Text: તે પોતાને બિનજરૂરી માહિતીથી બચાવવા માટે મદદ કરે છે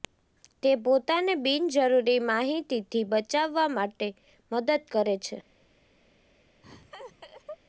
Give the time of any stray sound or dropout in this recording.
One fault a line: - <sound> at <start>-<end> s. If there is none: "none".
- laugh at 6.6-7.6 s